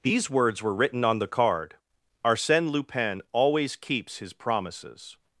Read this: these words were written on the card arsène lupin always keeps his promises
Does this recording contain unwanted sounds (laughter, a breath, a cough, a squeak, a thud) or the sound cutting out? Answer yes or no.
no